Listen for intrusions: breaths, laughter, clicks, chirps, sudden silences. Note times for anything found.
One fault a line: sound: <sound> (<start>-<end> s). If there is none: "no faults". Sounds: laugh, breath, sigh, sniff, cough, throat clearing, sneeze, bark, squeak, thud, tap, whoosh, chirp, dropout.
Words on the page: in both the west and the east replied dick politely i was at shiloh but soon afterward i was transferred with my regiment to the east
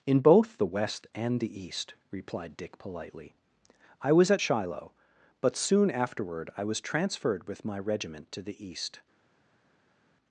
no faults